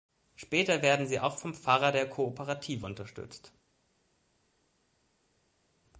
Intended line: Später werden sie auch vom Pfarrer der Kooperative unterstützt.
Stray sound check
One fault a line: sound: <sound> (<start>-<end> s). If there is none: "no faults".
no faults